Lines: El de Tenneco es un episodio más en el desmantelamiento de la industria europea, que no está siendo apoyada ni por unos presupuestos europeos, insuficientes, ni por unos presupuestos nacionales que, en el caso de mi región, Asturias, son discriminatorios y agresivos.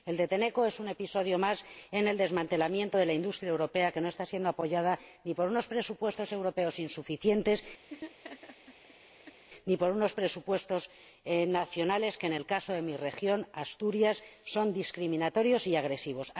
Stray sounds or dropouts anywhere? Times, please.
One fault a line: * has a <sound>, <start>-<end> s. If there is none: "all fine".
* has a laugh, 7.9-9.4 s